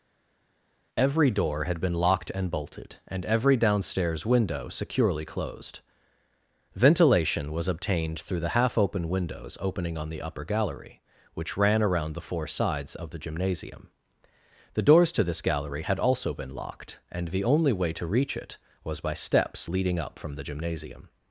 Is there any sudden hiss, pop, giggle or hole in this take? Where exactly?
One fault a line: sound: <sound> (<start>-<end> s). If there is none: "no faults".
no faults